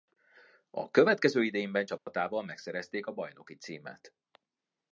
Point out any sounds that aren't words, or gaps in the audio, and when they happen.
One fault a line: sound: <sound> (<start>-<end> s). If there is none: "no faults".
sound: dropout (2.0-2.1 s)